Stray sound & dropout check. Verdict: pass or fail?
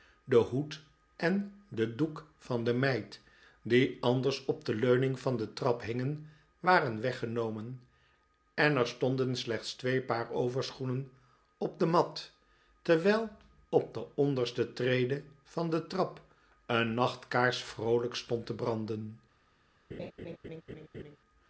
fail